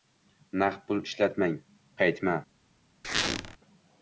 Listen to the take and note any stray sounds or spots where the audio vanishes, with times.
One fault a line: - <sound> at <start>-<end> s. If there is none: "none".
- squeak at 3.0-3.6 s